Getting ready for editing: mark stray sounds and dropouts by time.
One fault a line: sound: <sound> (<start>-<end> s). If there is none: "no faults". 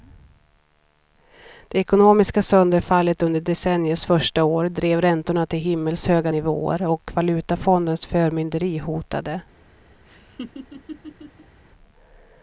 sound: laugh (10.1-11.6 s)